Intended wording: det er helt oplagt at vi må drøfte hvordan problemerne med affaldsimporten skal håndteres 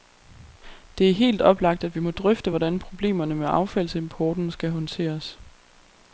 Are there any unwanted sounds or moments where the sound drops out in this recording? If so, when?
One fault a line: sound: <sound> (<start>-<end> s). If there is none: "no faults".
no faults